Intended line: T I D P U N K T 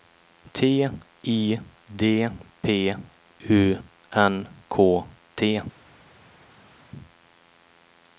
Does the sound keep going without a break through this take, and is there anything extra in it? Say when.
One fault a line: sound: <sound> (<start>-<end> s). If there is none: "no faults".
no faults